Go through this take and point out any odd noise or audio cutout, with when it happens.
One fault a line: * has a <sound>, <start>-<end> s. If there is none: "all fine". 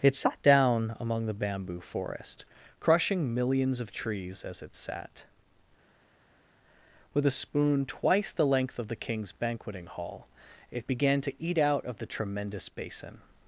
all fine